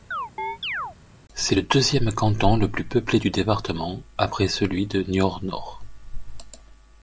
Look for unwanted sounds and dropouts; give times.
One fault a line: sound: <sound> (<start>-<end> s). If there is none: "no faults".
sound: chirp (0.1-1.0 s)